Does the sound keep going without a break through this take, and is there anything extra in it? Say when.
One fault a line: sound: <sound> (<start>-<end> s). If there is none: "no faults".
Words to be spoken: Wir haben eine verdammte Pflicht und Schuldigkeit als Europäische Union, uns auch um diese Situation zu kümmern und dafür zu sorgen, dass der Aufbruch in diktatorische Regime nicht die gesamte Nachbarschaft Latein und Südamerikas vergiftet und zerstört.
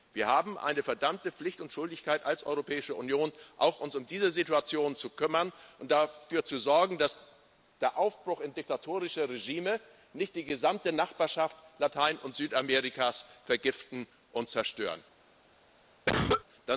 sound: cough (16.1-16.4 s)